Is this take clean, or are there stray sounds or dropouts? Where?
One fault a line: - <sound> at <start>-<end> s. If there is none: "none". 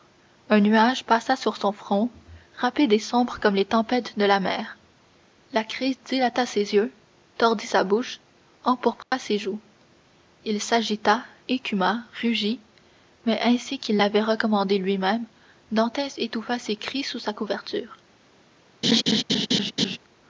- dropout at 9.0-9.1 s
- laugh at 18.8-20.0 s